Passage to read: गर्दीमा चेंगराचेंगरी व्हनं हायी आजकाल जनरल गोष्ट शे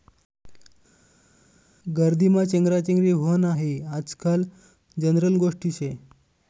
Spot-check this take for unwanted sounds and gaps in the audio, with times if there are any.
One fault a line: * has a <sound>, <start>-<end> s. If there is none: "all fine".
all fine